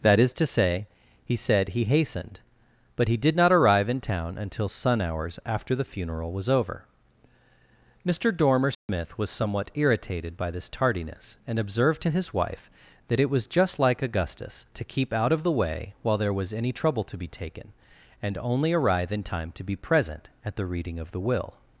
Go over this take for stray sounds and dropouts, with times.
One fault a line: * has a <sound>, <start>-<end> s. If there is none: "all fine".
* has a dropout, 8.7-8.9 s